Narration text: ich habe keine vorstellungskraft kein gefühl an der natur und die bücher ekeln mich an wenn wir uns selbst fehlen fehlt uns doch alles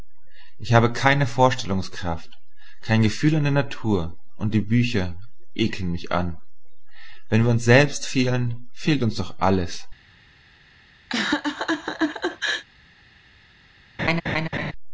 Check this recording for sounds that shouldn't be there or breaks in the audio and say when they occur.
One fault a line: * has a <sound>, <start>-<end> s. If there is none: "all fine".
* has a laugh, 11.1-12.6 s
* has a laugh, 14.0-14.7 s